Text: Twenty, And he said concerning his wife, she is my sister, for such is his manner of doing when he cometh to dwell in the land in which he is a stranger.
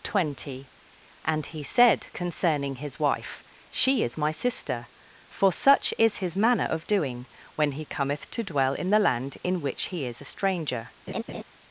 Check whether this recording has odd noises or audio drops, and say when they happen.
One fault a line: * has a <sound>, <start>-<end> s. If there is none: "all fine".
* has a laugh, 11.1-11.4 s